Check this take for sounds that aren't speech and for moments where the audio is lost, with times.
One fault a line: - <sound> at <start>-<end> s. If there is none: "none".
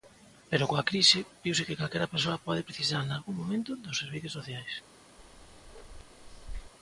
- bark at 5.2-6.7 s